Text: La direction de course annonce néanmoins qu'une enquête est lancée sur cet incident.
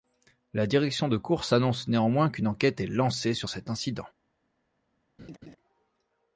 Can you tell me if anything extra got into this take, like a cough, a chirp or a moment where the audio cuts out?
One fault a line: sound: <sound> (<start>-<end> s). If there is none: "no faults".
sound: laugh (5.2-5.6 s)